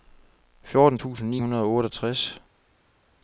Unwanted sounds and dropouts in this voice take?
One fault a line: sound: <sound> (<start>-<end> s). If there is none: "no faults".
no faults